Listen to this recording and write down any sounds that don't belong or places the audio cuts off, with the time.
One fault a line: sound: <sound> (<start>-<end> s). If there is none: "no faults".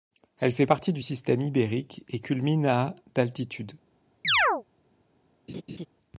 sound: chirp (4.2-4.6 s)
sound: laugh (5.5-5.9 s)